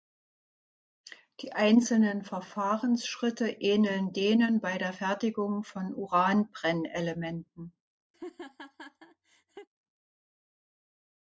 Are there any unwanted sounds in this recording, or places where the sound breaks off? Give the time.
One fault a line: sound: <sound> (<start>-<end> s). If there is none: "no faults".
sound: laugh (8.1-9.7 s)